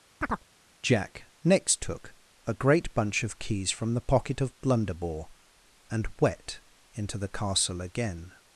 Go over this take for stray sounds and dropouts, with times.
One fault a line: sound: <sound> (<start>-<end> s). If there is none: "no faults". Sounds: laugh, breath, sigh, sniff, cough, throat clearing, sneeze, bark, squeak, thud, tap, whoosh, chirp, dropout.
sound: chirp (0.2-0.4 s)